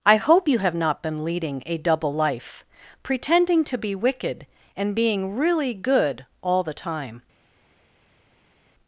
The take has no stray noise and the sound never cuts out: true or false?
true